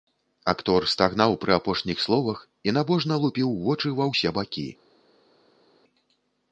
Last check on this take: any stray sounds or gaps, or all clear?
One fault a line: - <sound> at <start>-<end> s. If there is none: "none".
none